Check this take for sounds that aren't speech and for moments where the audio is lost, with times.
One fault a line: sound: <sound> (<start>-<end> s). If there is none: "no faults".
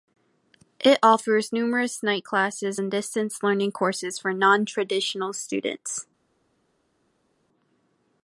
no faults